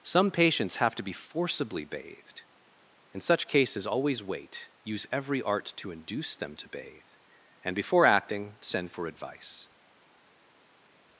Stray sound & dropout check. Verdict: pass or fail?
pass